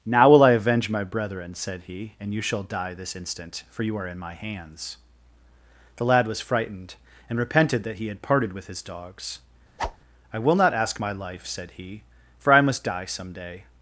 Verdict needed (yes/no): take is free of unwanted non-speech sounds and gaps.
no